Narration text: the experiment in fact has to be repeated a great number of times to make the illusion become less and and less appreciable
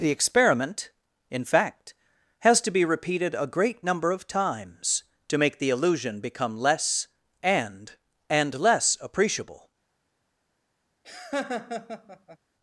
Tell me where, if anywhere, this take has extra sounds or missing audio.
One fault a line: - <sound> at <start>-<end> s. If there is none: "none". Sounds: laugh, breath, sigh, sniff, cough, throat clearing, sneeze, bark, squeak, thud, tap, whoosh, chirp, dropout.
- laugh at 11.0-12.4 s